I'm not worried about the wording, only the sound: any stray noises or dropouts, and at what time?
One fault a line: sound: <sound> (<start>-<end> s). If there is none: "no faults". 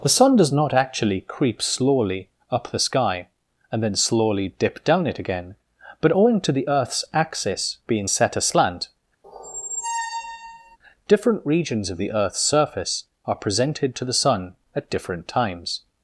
sound: squeak (9.2-10.8 s)